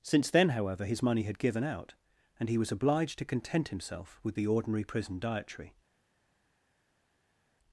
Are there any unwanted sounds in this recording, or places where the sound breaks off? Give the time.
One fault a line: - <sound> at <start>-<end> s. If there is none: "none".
none